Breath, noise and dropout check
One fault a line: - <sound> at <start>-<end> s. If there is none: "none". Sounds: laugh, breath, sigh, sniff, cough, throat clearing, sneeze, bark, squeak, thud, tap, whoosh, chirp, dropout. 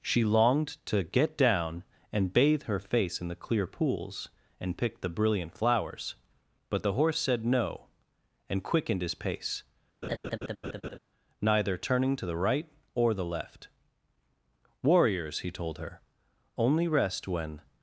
- laugh at 10.0-11.0 s